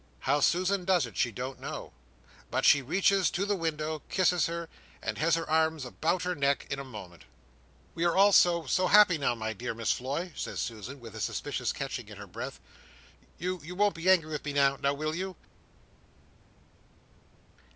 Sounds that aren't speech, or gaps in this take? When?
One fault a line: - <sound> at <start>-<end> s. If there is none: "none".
none